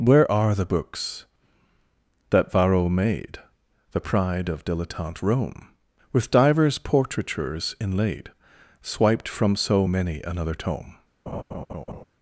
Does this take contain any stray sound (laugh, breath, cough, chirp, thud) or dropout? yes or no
yes